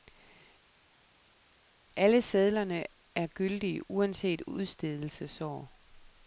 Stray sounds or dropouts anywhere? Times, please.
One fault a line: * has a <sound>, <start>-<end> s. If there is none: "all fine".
all fine